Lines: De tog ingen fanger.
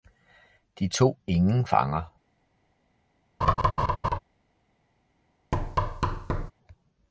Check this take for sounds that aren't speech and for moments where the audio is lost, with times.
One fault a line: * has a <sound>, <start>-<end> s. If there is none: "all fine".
* has a laugh, 3.4-4.2 s
* has a thud, 5.5-6.5 s